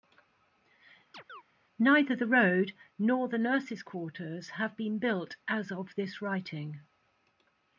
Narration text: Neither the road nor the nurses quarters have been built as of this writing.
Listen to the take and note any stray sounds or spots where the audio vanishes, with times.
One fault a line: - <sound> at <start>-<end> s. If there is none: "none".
- chirp at 1.1-1.4 s